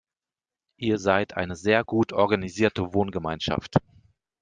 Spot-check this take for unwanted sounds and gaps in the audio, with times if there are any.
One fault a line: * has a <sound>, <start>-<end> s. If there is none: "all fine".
all fine